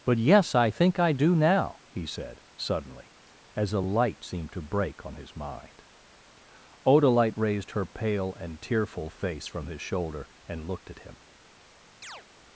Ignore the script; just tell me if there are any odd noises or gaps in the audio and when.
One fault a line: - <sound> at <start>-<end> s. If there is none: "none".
- chirp at 12.0-12.2 s